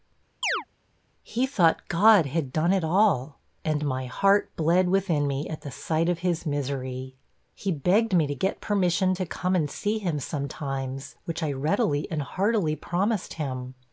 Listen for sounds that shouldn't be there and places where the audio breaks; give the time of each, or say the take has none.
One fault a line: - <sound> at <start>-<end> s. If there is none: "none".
- chirp at 0.4-0.7 s